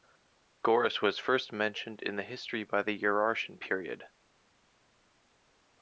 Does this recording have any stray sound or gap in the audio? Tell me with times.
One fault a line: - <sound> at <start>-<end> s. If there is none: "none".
none